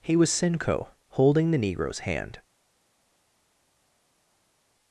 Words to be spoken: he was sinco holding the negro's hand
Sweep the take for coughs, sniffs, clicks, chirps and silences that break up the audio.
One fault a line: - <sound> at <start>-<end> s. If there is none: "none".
none